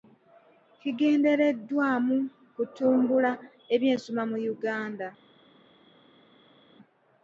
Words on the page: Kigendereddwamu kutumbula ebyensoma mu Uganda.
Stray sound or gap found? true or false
false